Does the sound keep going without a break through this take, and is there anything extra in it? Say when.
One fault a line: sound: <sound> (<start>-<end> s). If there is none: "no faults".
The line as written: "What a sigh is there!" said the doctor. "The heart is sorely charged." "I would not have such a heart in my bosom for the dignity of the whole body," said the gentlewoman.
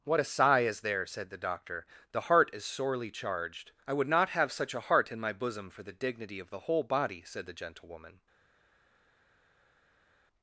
no faults